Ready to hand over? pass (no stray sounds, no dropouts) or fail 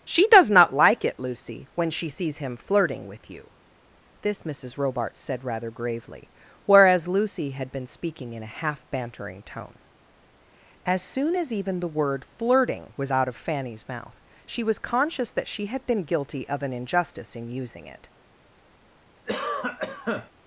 fail